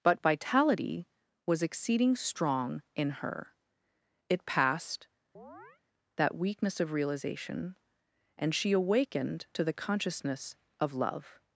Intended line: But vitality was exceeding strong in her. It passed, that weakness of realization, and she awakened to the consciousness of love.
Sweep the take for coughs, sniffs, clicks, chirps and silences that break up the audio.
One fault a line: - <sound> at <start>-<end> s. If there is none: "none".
- chirp at 5.3-5.8 s